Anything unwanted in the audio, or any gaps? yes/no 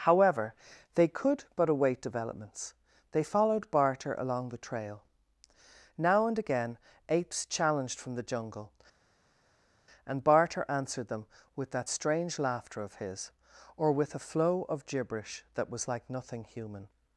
no